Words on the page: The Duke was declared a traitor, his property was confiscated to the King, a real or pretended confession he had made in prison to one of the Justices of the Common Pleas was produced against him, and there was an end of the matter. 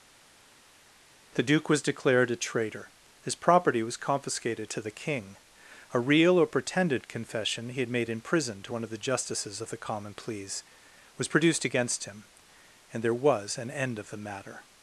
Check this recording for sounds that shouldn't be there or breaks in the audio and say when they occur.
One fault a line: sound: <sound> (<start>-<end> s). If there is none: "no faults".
no faults